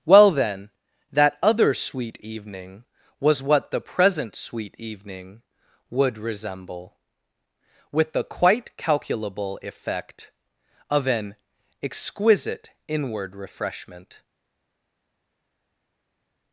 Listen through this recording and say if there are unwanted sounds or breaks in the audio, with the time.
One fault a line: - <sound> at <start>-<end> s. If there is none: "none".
none